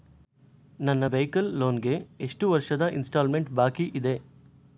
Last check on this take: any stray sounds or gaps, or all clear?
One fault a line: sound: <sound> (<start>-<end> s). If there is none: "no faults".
no faults